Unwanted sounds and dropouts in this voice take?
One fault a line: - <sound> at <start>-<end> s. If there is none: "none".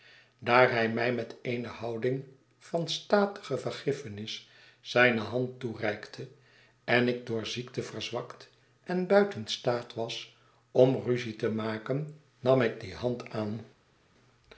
none